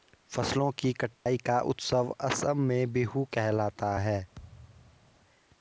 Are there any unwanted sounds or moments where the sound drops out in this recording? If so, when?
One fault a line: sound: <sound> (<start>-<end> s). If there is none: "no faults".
sound: dropout (1.1-1.3 s)
sound: thud (4.3-5.2 s)